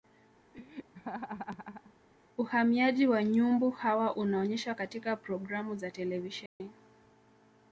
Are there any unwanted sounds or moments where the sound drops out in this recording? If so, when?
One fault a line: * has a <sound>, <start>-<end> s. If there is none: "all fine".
* has a laugh, 0.5-1.9 s
* has a dropout, 6.5-6.6 s